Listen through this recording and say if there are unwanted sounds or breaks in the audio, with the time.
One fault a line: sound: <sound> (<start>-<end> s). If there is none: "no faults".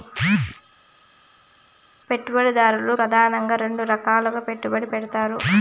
no faults